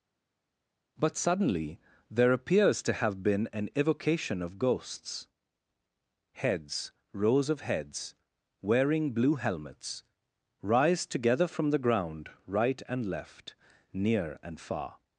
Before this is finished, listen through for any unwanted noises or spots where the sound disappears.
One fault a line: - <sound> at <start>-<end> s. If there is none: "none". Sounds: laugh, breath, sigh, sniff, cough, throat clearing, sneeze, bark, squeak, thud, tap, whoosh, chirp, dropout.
none